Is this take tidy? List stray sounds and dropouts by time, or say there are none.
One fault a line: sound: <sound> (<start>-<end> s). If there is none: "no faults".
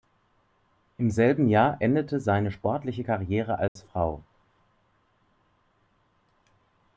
sound: dropout (3.7-3.8 s)